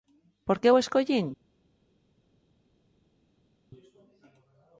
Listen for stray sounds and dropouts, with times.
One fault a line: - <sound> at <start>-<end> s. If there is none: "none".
none